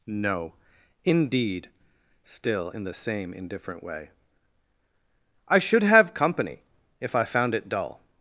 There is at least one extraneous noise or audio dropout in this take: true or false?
false